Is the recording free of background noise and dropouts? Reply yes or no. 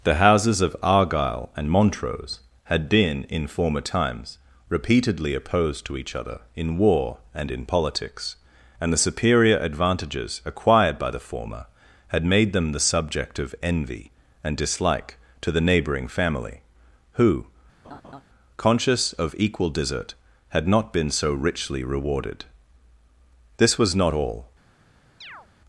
no